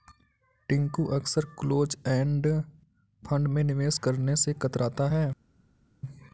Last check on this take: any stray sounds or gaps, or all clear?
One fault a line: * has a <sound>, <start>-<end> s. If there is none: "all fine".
all fine